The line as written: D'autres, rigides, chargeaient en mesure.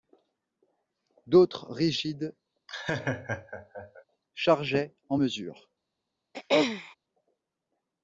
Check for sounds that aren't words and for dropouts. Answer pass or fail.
fail